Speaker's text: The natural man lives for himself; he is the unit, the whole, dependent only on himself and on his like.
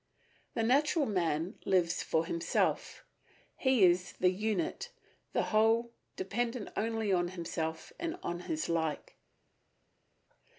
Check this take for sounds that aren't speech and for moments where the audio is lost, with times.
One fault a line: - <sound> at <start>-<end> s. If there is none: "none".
none